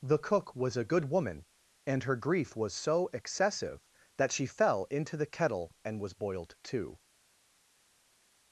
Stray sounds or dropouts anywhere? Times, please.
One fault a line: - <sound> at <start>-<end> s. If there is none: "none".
none